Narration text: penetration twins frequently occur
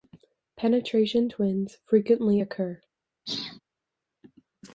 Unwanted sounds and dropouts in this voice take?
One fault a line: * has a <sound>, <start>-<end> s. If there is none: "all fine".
* has a sneeze, 3.3-3.6 s